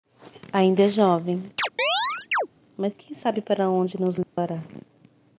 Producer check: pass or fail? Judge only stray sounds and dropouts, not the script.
fail